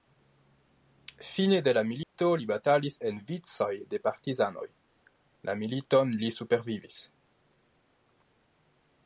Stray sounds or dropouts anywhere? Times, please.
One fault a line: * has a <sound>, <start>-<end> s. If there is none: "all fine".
* has a dropout, 2.0-2.2 s